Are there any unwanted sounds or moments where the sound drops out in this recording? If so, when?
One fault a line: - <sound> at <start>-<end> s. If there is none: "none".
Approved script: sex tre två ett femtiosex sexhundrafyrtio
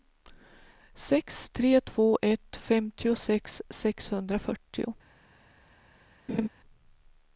- laugh at 6.3-6.5 s